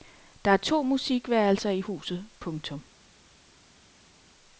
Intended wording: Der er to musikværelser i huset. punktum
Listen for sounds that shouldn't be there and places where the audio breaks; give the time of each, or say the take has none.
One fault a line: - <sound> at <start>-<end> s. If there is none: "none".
none